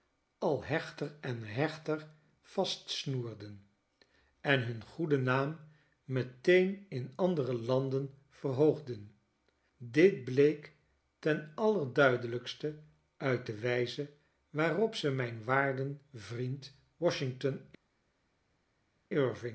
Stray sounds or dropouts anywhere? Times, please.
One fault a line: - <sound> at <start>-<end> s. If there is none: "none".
none